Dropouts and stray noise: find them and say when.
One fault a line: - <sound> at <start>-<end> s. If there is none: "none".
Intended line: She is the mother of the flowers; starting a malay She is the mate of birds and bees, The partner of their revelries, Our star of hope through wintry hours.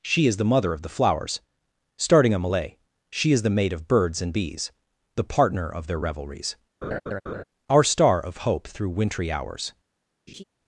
- laugh at 6.8-7.4 s
- laugh at 10.3-10.4 s